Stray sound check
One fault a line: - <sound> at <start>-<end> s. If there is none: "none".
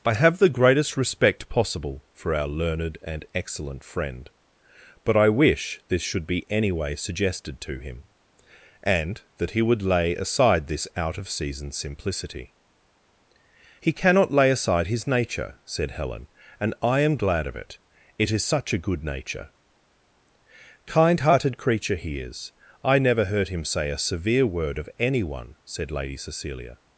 none